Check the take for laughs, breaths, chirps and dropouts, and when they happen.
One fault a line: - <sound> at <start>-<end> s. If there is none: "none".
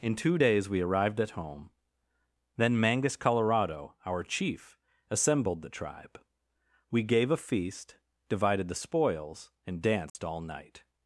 - dropout at 10.1-10.2 s